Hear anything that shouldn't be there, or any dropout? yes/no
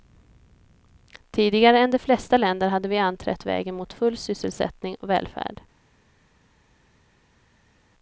no